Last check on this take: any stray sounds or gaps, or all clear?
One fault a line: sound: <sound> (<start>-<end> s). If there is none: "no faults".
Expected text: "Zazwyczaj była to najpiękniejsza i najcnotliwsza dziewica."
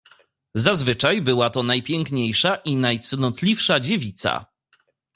no faults